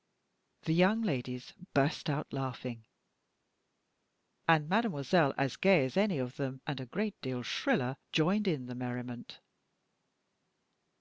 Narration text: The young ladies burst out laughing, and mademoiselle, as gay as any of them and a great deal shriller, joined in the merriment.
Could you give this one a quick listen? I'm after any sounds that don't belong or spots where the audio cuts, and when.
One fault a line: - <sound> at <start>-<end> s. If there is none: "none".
none